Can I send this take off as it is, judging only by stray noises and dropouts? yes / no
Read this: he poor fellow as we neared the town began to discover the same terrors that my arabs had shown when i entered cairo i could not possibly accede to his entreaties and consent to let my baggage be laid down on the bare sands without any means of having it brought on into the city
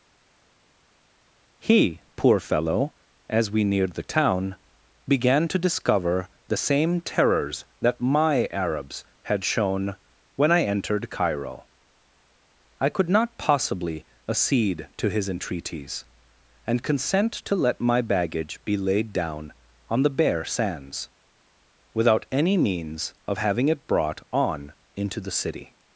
yes